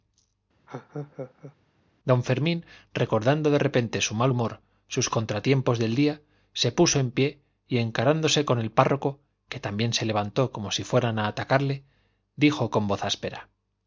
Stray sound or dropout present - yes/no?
yes